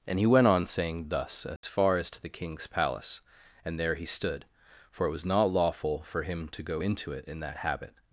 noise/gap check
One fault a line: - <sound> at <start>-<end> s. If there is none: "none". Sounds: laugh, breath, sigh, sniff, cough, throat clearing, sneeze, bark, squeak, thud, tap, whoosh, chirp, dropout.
- dropout at 1.6-1.6 s